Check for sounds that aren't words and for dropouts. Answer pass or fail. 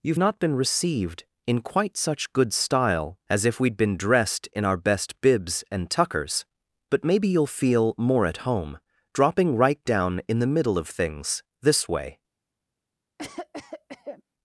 fail